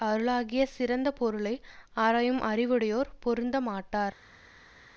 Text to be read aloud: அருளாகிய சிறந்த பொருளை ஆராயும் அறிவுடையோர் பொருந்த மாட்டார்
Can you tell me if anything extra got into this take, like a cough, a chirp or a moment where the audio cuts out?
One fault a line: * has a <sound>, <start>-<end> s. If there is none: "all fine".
all fine